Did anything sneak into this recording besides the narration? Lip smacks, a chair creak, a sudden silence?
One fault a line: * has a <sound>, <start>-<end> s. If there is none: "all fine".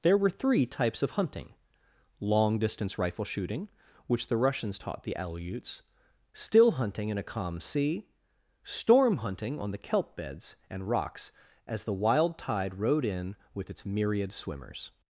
all fine